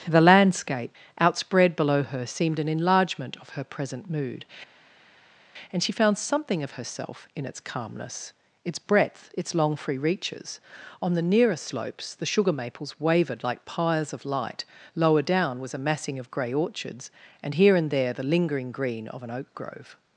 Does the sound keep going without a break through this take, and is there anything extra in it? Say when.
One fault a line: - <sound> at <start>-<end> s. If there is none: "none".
none